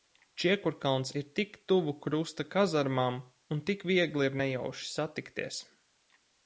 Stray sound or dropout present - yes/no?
no